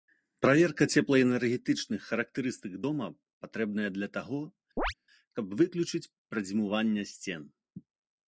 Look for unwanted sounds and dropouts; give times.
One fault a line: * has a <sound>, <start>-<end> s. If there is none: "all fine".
* has a chirp, 4.8-4.9 s